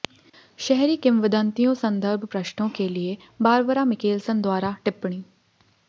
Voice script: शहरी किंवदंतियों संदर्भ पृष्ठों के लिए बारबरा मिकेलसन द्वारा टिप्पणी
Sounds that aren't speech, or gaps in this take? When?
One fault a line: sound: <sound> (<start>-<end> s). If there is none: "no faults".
no faults